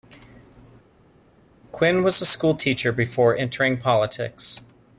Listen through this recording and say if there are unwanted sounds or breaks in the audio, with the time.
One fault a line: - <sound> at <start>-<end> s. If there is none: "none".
none